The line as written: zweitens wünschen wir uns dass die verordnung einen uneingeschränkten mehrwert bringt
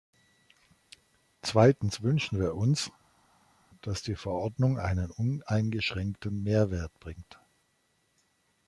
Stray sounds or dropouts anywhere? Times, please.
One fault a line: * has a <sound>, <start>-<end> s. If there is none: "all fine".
all fine